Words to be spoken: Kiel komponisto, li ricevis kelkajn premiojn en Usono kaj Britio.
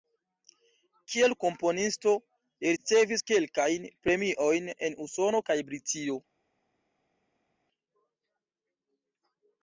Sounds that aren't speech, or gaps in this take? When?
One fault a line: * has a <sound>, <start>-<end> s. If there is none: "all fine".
all fine